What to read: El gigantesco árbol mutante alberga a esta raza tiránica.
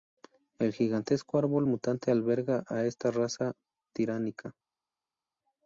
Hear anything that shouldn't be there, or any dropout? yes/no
no